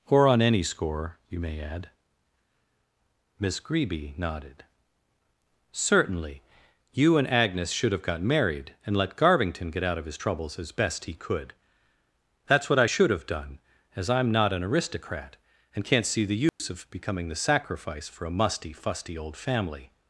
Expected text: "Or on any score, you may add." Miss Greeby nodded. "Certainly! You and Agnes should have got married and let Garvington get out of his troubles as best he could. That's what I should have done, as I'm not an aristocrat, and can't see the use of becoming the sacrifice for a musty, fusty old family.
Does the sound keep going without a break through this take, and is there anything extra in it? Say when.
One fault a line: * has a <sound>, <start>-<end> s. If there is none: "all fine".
* has a dropout, 16.5-16.6 s